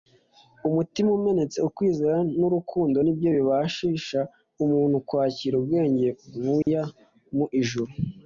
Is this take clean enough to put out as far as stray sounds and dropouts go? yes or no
no